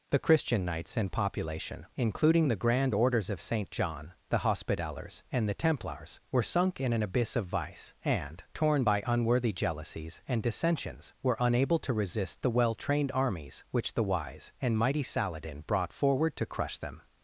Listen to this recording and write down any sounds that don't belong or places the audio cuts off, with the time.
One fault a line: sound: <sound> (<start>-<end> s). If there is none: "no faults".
no faults